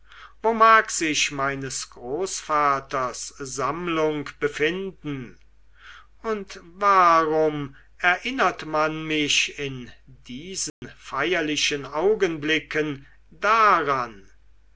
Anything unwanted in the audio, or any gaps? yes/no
yes